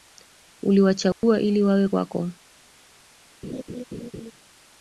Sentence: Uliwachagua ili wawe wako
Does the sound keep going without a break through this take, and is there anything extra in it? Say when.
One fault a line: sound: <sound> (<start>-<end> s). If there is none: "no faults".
sound: dropout (1.1-1.2 s)
sound: laugh (3.4-4.3 s)